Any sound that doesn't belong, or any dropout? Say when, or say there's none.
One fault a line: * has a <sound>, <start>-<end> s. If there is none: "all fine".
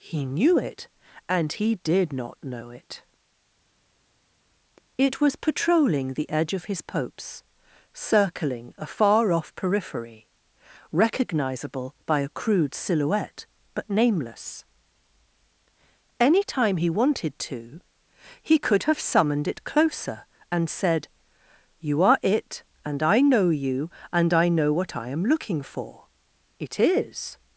all fine